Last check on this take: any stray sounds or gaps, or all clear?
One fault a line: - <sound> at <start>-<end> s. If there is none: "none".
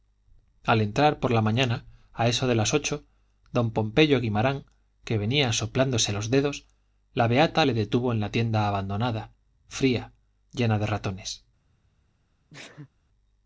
- sneeze at 12.5-12.9 s